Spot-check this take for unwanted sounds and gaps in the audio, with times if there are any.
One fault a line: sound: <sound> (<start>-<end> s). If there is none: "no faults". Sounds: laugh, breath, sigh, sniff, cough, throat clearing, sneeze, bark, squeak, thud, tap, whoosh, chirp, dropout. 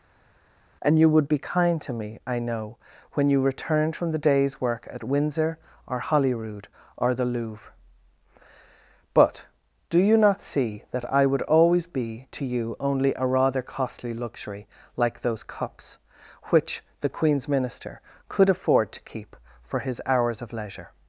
no faults